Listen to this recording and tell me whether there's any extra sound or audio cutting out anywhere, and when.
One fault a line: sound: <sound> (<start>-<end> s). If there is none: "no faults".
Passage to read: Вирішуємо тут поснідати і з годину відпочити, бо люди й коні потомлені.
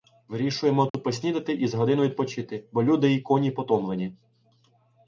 sound: dropout (0.9-0.9 s)